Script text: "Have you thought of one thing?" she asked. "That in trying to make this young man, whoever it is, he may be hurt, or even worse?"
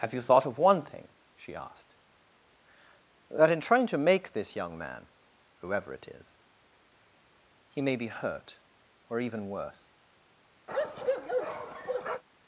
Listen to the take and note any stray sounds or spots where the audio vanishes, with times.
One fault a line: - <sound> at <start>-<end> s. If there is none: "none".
- bark at 10.7-12.2 s